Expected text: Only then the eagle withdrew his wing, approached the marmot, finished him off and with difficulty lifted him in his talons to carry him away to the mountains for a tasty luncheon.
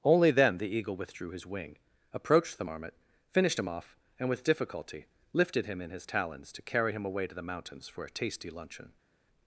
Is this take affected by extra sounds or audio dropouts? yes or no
no